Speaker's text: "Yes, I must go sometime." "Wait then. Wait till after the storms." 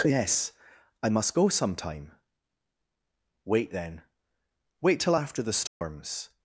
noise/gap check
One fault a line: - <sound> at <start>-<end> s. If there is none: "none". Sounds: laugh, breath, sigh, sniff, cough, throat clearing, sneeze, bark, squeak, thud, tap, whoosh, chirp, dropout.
- dropout at 5.7-5.8 s